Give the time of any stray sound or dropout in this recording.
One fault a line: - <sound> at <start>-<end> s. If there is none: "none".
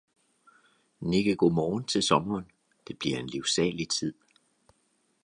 none